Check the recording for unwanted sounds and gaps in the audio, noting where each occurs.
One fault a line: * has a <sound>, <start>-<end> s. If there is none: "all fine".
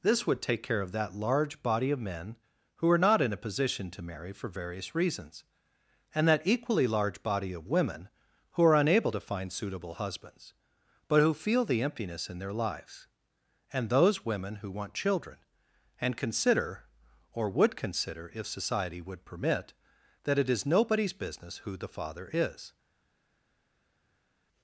all fine